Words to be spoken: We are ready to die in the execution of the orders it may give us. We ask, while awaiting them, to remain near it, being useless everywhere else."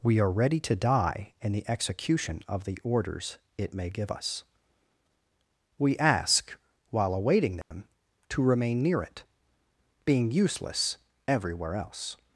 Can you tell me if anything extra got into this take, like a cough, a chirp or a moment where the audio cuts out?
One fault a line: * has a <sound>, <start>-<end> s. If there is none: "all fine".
* has a dropout, 7.6-7.7 s